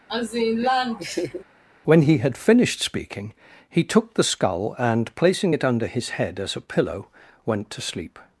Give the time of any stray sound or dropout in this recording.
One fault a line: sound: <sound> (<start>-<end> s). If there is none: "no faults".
sound: laugh (0.1-1.4 s)